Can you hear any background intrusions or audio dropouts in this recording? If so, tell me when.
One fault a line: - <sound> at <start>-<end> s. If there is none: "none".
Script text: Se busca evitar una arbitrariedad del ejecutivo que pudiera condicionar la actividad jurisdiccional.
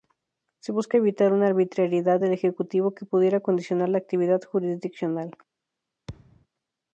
- thud at 6.1-6.5 s